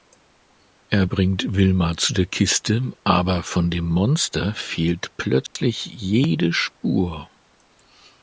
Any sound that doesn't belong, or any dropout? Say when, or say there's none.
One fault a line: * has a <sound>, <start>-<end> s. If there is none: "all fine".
* has a dropout, 5.5-5.6 s